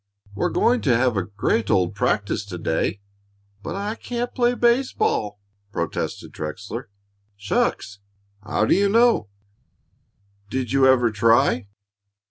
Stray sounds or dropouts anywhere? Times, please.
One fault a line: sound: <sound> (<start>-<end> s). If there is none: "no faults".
no faults